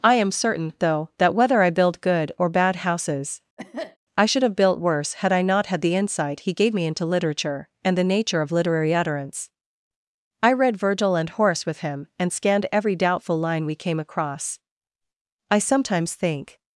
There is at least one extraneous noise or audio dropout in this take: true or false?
true